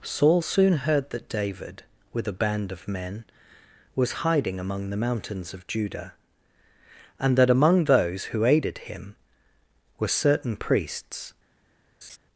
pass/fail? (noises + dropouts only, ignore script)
fail